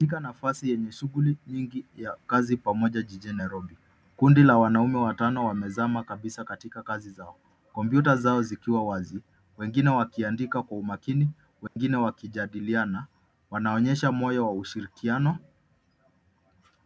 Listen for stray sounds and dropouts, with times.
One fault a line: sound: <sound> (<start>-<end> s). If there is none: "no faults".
sound: dropout (11.7-11.8 s)